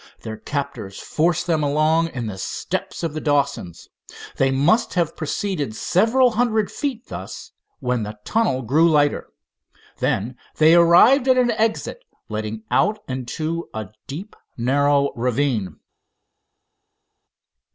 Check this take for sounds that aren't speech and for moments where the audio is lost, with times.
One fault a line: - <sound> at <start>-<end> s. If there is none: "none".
none